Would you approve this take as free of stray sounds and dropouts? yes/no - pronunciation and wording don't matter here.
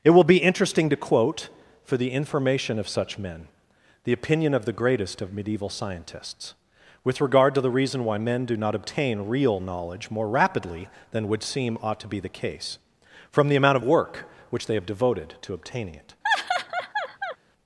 no